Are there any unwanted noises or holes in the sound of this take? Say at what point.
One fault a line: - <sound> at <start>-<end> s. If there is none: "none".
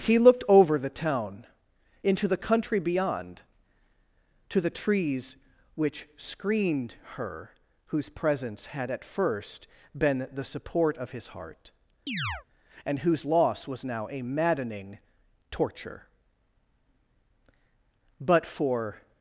- chirp at 12.1-12.4 s